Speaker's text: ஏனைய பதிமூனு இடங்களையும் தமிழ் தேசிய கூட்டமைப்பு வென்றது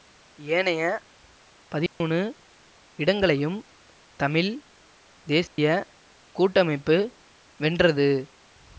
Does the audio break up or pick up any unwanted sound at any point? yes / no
yes